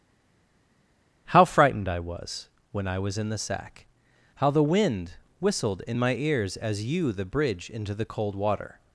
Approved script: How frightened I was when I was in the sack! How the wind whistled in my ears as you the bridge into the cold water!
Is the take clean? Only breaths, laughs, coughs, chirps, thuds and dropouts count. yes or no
yes